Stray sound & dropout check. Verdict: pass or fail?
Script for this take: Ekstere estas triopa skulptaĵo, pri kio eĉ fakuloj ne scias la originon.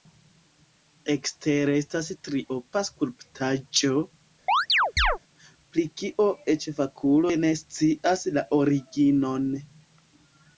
fail